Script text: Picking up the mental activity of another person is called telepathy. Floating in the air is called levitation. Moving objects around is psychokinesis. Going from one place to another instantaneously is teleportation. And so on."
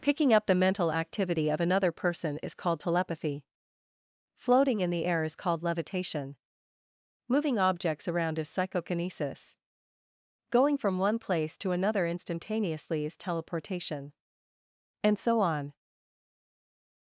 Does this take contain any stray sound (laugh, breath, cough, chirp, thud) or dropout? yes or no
no